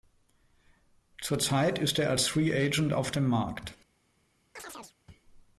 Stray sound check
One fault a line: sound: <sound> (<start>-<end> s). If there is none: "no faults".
sound: chirp (4.6-5.0 s)